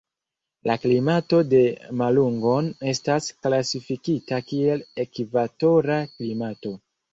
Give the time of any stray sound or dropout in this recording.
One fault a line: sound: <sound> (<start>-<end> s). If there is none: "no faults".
no faults